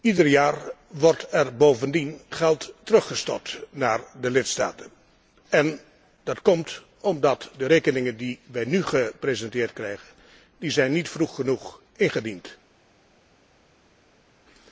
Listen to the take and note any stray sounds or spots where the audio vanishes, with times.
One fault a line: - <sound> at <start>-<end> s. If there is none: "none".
none